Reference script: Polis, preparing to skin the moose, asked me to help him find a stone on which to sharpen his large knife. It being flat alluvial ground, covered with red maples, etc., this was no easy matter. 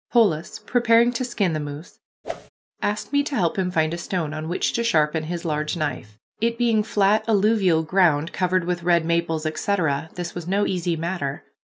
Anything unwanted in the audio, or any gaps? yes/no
yes